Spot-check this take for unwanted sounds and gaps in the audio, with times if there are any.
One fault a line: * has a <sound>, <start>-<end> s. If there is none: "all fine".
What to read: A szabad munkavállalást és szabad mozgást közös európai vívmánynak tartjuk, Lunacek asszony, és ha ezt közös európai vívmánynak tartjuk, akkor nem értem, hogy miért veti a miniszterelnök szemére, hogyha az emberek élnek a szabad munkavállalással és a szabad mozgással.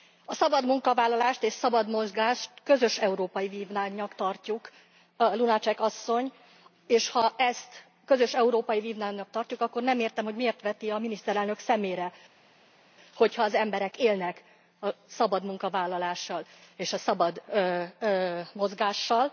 all fine